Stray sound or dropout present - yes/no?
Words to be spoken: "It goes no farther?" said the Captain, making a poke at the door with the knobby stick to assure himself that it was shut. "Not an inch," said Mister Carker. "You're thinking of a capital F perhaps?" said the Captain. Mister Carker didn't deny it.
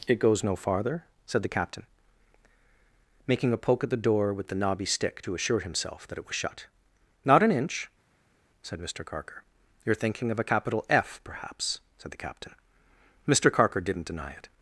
no